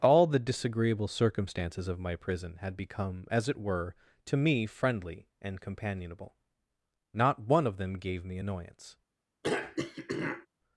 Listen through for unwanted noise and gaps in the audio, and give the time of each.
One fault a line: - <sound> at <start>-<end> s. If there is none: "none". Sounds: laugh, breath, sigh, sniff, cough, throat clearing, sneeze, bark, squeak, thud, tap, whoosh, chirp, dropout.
- throat clearing at 9.4-10.5 s